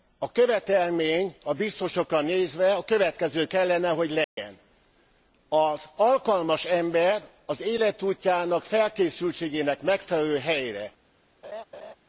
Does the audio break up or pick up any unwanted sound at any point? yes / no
yes